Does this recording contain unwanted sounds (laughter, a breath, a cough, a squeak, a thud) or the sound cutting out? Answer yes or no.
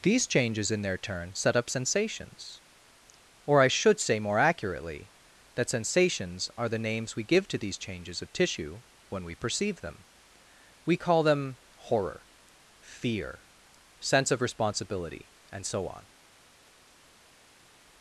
no